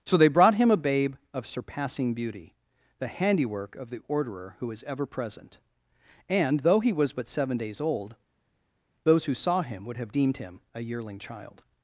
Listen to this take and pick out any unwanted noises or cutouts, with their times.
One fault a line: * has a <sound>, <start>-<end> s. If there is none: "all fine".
all fine